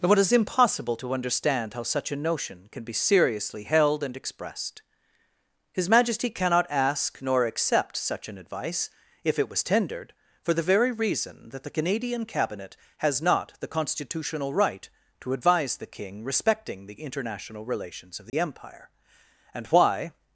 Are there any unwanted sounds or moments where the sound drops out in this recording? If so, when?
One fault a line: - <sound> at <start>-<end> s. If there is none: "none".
- dropout at 18.3-18.3 s